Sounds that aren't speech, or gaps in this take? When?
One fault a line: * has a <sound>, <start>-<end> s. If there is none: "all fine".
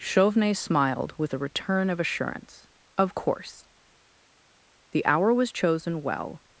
all fine